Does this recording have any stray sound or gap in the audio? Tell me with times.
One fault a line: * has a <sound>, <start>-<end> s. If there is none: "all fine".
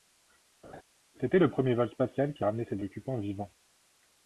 * has a laugh, 0.6-0.8 s